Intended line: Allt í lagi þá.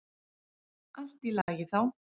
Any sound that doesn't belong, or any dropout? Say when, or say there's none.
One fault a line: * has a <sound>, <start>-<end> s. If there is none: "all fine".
* has a dropout, 1.4-1.5 s